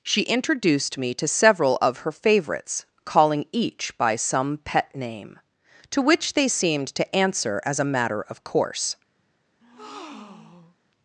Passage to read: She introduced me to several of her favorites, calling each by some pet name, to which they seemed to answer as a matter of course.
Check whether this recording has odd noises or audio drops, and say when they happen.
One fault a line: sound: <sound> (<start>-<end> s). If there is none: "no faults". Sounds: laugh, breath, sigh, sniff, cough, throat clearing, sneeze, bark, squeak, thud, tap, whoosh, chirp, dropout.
sound: breath (9.6-10.8 s)